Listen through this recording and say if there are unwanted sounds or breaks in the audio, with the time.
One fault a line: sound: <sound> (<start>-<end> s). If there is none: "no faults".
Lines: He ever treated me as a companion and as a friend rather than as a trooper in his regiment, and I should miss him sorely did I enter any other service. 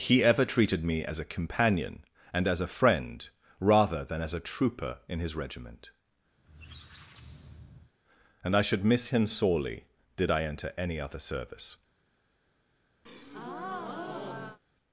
sound: squeak (6.4-7.9 s)
sound: breath (13.1-14.6 s)